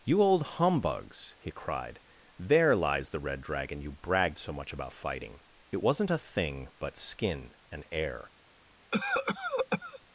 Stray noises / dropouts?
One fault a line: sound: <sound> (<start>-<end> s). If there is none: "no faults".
sound: cough (8.9-10.0 s)